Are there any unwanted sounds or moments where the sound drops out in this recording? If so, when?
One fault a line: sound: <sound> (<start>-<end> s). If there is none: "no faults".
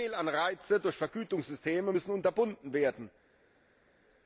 no faults